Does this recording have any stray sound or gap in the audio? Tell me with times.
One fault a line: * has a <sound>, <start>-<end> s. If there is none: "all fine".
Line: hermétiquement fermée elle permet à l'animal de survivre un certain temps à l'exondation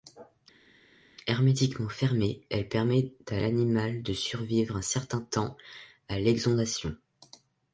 all fine